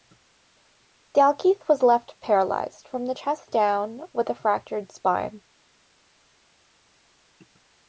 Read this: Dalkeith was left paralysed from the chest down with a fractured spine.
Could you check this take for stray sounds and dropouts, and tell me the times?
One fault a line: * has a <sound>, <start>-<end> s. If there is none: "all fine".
all fine